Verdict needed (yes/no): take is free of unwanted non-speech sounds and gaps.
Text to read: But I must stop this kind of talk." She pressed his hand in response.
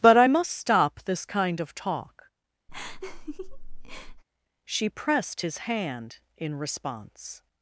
no